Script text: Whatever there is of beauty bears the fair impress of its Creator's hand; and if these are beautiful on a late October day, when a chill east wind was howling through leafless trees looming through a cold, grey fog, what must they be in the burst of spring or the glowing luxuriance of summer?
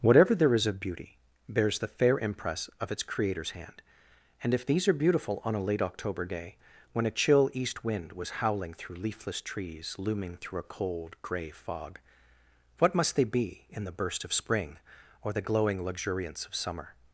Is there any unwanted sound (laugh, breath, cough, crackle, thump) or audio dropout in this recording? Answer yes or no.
no